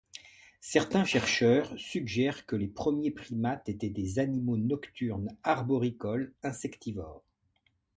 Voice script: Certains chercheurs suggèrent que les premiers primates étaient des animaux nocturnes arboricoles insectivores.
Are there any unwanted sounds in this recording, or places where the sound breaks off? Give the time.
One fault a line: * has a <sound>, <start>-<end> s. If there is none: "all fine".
all fine